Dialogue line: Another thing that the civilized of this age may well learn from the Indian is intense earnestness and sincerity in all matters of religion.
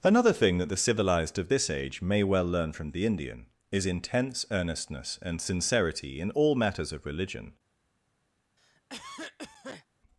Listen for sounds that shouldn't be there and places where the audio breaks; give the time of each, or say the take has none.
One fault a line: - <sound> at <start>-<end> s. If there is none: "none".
- cough at 8.6-9.9 s